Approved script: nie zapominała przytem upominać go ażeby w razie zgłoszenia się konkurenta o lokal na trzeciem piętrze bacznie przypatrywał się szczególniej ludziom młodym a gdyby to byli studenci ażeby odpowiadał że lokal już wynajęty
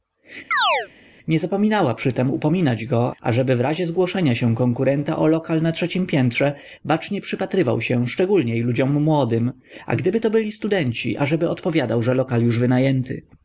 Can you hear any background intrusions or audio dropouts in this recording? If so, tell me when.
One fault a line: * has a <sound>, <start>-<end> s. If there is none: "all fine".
* has a chirp, 0.5-0.9 s